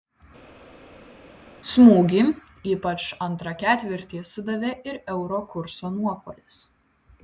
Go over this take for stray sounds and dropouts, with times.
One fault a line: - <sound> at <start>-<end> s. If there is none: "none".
none